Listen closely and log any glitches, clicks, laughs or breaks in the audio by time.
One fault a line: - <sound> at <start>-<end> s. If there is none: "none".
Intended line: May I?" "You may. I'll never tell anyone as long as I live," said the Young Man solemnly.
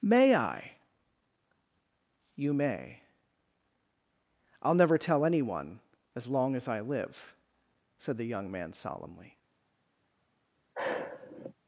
- sigh at 10.7-11.5 s